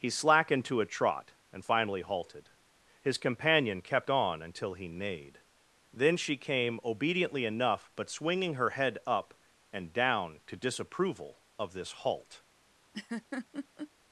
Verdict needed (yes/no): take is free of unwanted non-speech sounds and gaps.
no